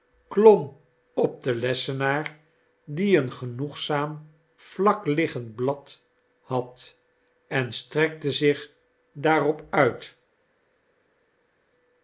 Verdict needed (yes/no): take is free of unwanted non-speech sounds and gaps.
yes